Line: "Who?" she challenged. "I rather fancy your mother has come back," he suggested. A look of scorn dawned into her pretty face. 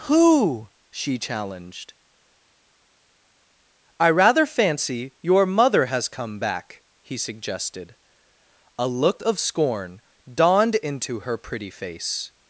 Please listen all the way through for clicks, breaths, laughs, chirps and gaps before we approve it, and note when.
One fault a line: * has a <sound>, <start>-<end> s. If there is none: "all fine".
all fine